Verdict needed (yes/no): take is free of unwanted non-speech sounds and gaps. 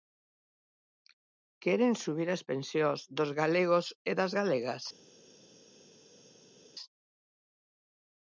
yes